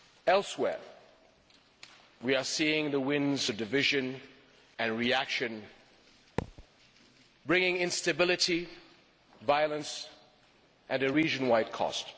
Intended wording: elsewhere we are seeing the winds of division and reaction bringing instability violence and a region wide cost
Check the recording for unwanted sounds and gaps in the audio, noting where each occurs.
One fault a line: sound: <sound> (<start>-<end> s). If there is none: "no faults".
sound: thud (6.4-6.7 s)